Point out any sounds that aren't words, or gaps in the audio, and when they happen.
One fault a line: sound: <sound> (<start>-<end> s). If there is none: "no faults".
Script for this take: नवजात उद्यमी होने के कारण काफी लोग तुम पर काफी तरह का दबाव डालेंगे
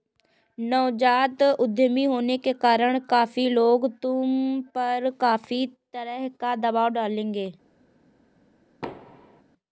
sound: thud (8.8-9.4 s)